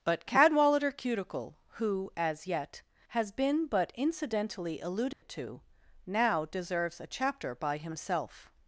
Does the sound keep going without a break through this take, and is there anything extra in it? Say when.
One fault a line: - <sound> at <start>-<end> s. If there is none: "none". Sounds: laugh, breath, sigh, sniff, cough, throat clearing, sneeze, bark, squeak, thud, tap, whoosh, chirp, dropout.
- dropout at 5.1-5.2 s